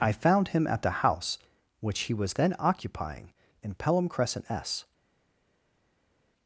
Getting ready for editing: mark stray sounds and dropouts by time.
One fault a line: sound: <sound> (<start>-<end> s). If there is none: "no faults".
no faults